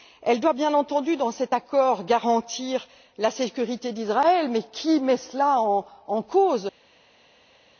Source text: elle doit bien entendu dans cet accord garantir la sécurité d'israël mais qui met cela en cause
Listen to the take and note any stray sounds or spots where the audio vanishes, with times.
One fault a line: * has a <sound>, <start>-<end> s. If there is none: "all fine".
all fine